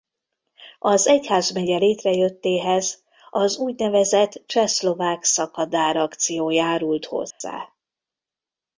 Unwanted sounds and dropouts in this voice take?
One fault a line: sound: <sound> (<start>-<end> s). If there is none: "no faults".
sound: dropout (7.3-7.4 s)